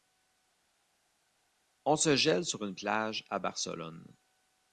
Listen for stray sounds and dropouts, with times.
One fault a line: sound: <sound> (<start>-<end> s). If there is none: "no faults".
no faults